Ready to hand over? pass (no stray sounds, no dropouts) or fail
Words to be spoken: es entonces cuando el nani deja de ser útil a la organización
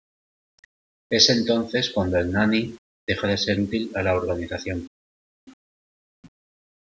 pass